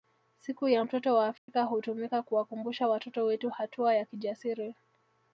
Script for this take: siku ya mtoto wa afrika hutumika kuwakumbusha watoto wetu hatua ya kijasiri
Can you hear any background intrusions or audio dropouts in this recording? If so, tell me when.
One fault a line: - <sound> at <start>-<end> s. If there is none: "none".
- dropout at 1.4-1.5 s